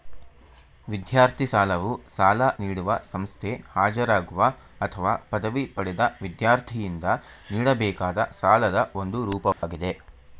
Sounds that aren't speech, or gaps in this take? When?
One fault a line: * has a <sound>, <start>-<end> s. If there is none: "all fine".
* has a dropout, 9.5-9.6 s